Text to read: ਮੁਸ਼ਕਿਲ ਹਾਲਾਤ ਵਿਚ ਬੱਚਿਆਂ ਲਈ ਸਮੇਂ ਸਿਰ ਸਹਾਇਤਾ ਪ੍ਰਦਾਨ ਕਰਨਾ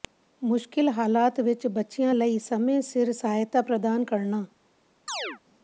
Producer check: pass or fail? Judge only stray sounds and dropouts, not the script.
fail